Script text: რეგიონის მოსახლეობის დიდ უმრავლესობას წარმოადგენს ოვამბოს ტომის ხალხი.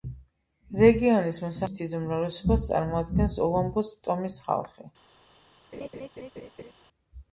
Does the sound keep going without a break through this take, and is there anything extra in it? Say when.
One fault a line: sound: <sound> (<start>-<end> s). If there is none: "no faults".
sound: laugh (5.7-6.7 s)